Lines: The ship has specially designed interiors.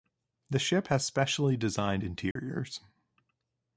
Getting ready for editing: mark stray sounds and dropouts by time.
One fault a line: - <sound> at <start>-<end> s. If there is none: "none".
- dropout at 2.3-2.4 s